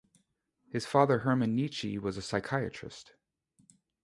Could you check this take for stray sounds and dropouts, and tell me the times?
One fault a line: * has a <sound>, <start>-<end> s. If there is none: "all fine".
all fine